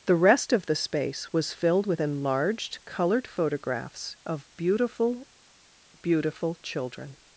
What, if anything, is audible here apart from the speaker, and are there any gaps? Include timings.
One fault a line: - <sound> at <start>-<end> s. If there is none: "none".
none